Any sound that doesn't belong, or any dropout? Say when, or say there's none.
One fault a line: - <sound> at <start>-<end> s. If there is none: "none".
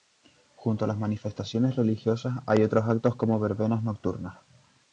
none